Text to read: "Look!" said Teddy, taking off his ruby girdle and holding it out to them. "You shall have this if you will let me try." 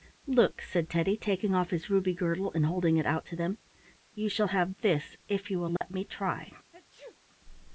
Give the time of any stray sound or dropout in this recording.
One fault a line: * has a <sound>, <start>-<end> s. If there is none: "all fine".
* has a dropout, 5.8-5.8 s
* has a sneeze, 6.7-7.2 s